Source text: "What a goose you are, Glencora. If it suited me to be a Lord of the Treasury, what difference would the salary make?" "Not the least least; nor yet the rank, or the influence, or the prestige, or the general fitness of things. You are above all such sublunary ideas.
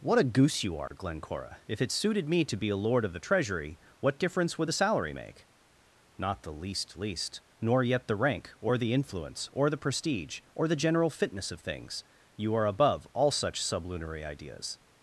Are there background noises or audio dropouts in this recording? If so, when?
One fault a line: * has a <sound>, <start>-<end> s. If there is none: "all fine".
* has a dropout, 0.9-0.9 s